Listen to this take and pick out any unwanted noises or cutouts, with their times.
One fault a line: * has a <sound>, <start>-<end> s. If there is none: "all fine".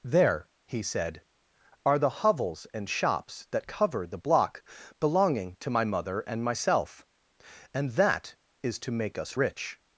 all fine